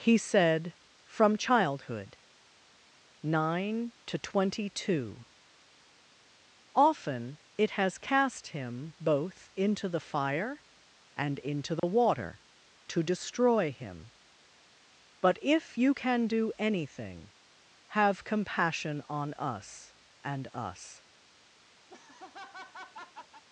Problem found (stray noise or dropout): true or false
true